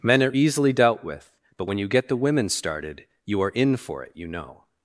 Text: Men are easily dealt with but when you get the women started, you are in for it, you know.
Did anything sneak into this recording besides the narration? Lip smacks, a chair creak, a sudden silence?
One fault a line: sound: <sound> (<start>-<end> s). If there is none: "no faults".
no faults